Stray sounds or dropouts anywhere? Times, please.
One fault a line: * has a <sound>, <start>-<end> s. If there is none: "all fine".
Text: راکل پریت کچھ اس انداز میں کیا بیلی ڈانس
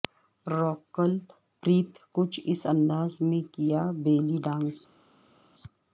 all fine